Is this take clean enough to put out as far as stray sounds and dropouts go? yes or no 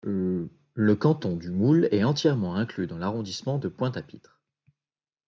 yes